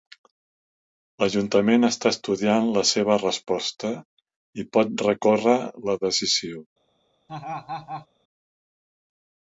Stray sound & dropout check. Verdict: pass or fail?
fail